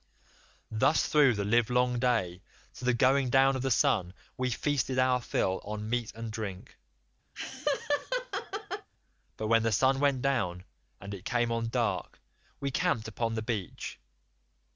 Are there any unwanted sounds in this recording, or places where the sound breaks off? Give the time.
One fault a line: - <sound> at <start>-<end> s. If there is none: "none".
- laugh at 7.3-8.9 s